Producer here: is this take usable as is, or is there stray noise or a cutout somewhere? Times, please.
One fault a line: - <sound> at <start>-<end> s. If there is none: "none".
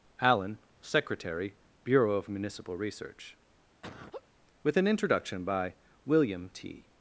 - laugh at 3.8-4.3 s